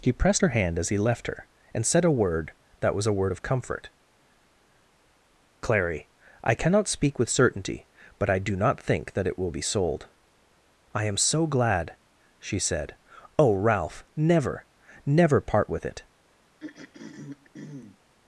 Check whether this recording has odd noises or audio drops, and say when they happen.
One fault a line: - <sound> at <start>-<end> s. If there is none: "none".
- throat clearing at 16.6-18.0 s